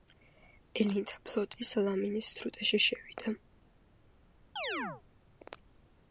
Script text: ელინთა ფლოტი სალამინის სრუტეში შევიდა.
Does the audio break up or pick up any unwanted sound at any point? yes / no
yes